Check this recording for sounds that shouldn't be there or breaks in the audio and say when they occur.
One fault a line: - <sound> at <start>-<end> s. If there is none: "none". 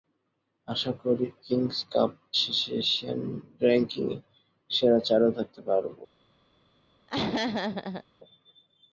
- laugh at 7.1-8.0 s